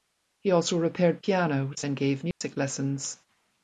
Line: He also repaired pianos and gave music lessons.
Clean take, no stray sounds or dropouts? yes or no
no